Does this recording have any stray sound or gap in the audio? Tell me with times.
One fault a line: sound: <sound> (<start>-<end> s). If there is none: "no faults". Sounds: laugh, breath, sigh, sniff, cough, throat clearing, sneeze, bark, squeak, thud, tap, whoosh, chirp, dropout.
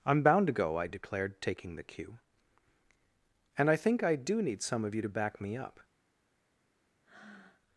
sound: breath (7.0-7.6 s)